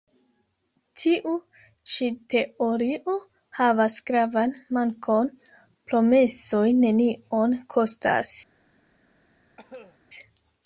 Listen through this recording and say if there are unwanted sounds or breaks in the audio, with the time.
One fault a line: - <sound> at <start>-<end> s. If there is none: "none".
- cough at 9.6-10.0 s